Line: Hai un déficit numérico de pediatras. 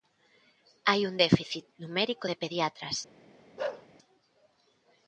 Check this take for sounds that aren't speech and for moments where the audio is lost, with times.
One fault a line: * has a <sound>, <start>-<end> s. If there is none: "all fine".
* has a bark, 3.6-3.9 s